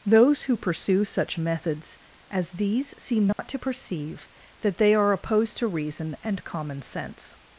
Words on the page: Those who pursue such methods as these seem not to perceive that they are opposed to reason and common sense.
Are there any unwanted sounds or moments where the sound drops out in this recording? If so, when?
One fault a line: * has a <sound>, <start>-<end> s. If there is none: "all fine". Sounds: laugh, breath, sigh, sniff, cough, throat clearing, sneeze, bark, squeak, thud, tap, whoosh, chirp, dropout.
* has a dropout, 3.3-3.4 s